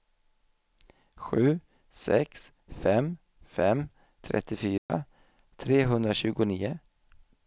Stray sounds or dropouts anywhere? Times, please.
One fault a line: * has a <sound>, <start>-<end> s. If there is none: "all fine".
* has a dropout, 4.8-4.9 s